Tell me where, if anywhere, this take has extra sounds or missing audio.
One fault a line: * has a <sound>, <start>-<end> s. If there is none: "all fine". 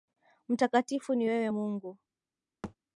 * has a thud, 2.6-2.8 s